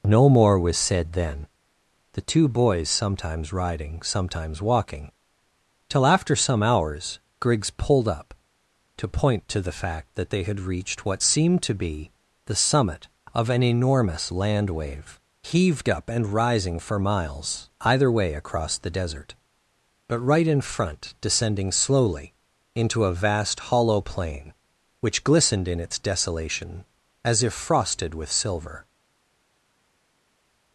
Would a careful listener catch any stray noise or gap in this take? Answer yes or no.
no